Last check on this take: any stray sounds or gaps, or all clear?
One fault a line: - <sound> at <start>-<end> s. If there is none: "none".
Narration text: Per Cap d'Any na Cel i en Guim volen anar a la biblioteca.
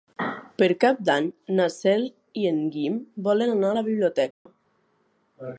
- dropout at 4.3-4.5 s